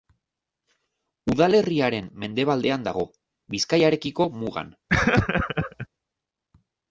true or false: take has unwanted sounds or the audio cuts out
true